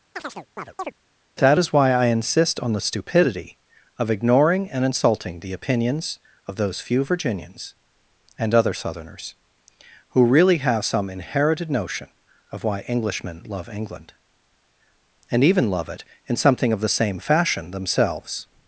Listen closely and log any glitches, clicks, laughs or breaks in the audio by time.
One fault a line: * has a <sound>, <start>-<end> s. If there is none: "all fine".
* has a chirp, 0.2-0.9 s